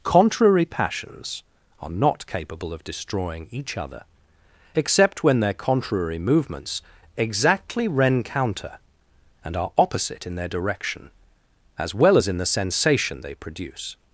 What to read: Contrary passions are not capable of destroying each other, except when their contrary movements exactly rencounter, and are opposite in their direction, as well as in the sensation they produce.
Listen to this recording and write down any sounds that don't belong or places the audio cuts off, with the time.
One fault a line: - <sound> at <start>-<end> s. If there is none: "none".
none